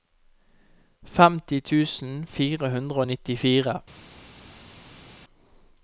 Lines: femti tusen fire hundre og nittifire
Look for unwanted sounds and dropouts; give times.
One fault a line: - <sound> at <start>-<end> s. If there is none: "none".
none